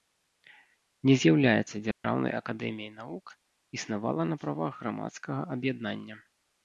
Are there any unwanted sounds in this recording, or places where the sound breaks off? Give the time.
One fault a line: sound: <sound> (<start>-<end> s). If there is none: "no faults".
sound: dropout (1.9-2.0 s)